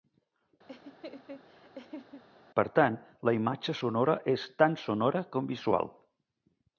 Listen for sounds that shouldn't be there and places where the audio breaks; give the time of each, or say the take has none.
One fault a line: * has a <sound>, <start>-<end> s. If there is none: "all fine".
* has a laugh, 0.7-2.2 s